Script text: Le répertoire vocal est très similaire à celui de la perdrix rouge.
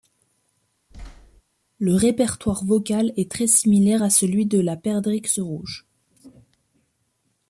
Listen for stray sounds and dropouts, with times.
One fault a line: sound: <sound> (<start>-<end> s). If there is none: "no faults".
sound: thud (0.9-1.4 s)